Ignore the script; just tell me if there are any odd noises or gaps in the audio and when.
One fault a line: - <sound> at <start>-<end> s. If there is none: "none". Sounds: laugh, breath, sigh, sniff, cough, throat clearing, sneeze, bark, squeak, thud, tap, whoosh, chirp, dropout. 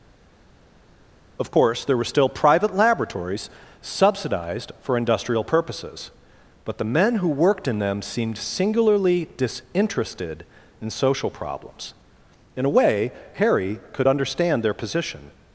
none